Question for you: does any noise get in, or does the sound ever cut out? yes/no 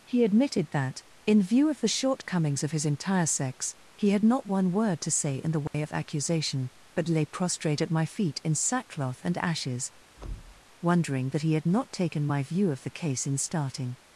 yes